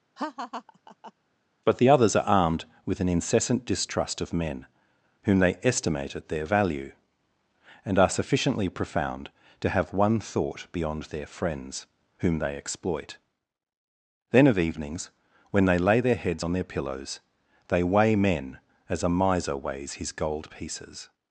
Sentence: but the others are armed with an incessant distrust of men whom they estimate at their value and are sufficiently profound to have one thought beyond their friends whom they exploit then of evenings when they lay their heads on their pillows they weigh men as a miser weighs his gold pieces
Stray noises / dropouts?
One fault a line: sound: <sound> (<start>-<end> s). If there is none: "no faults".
sound: laugh (0.2-1.1 s)